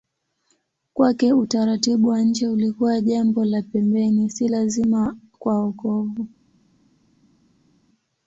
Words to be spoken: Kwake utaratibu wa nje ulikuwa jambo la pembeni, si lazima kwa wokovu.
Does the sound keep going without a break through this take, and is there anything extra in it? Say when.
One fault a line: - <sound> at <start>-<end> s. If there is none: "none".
none